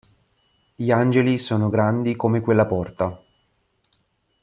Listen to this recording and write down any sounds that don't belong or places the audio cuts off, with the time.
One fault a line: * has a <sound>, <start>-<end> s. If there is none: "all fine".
all fine